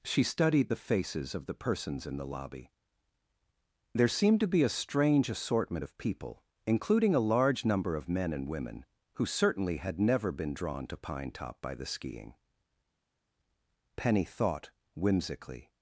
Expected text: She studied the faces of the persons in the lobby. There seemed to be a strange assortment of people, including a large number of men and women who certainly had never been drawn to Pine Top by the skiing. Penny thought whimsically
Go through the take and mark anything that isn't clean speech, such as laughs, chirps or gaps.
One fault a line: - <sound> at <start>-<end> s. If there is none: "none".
none